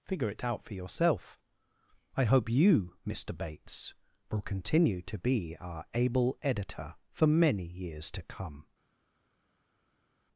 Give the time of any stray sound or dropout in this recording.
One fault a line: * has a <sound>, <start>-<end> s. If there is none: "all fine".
all fine